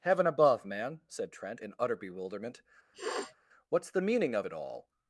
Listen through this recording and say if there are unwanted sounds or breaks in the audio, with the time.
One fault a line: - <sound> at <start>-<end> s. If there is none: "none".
- sniff at 2.9-3.4 s